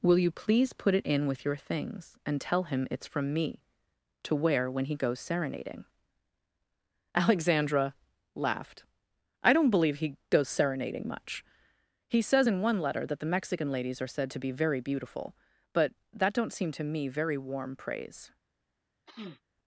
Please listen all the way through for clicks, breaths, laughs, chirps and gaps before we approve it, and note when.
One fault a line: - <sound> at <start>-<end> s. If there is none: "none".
- sniff at 19.1-19.4 s